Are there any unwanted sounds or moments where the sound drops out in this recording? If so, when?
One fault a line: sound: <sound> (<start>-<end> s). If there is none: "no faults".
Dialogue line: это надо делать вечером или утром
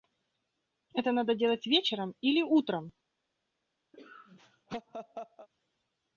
sound: laugh (3.9-5.5 s)